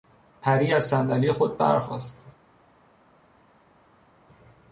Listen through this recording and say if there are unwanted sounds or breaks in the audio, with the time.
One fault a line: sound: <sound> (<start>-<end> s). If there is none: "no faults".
no faults